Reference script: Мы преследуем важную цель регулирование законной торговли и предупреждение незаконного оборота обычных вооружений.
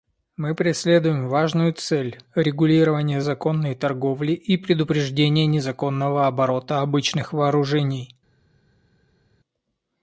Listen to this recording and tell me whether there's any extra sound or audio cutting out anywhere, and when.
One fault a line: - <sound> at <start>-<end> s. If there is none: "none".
none